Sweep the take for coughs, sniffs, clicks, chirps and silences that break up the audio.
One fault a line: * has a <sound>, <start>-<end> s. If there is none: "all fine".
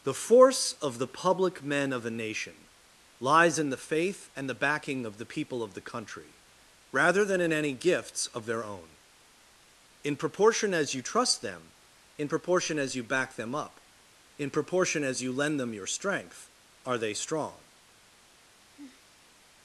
* has a sigh, 18.7-19.4 s